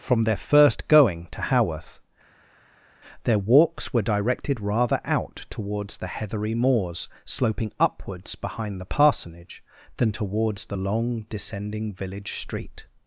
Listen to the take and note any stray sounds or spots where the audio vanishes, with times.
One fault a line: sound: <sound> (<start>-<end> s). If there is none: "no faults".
no faults